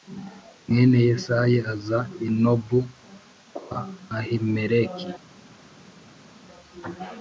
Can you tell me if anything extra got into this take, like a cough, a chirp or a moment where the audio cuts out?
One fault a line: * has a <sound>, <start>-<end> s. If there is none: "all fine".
all fine